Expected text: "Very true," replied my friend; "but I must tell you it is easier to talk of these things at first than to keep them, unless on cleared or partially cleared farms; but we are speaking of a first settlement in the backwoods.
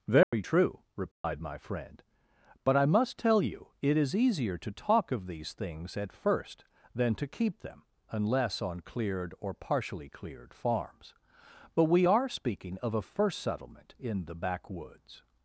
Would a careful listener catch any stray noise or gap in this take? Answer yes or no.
yes